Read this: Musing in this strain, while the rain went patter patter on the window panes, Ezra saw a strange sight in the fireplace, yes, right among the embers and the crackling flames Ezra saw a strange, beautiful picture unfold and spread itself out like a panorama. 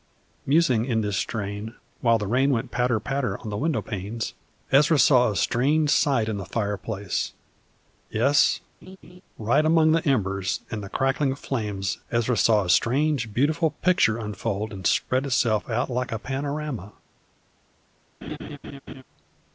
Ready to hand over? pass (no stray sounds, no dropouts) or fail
fail